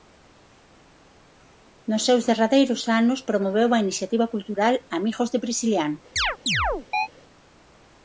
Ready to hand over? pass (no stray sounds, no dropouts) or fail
fail